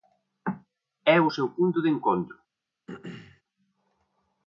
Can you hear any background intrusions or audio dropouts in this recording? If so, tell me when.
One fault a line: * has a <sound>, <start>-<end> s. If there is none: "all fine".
* has a throat clearing, 2.9-3.4 s